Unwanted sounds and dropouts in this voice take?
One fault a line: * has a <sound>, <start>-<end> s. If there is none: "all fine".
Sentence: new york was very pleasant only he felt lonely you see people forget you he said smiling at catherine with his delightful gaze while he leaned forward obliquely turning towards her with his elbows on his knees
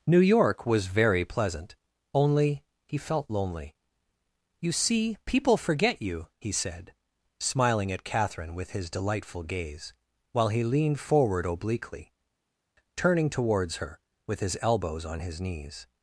all fine